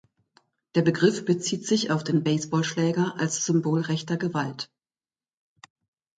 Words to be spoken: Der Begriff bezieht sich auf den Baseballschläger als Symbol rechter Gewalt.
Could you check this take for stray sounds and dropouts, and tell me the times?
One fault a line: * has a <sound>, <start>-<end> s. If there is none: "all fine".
all fine